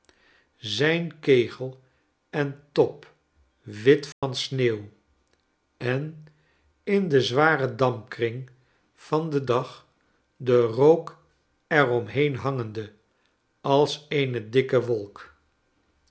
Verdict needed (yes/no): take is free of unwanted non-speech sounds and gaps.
no